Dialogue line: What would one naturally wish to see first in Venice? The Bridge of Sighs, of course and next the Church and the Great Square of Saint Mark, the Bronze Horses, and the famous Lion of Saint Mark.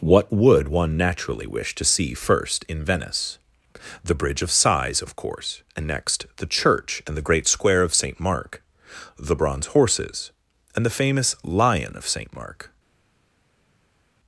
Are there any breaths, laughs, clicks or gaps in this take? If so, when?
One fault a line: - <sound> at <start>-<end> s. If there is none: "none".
none